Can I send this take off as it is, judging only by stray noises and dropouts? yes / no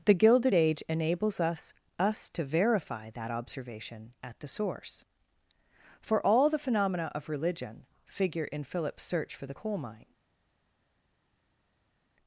yes